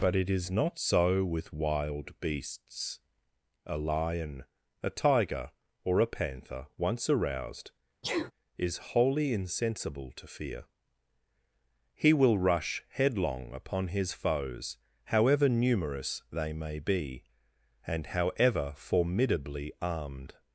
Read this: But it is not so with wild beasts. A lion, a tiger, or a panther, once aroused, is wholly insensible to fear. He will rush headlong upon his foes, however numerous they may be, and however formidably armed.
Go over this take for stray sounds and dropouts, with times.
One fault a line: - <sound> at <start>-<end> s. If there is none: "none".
- sneeze at 8.0-8.3 s